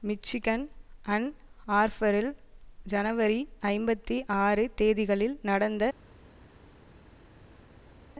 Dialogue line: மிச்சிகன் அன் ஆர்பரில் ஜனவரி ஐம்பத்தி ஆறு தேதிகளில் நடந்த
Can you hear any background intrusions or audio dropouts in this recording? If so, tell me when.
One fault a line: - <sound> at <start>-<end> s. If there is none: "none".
none